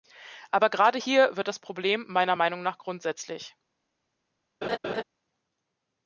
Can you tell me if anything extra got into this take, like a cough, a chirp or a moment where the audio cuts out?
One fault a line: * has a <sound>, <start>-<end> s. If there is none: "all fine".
* has a laugh, 4.6-5.0 s